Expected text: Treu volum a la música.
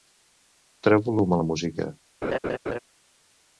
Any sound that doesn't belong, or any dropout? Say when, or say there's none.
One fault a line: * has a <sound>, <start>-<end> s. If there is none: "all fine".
* has a laugh, 2.2-2.8 s